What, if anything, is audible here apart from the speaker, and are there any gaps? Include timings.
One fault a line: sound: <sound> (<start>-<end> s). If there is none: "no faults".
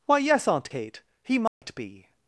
sound: dropout (1.5-1.6 s)